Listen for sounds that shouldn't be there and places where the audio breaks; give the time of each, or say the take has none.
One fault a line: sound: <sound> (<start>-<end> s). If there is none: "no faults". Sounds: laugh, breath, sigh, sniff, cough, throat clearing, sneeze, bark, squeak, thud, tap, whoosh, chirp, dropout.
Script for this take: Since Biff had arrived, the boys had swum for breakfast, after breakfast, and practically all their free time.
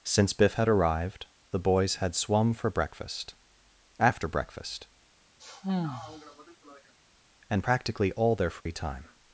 sound: sigh (5.4-6.9 s)
sound: dropout (8.6-8.7 s)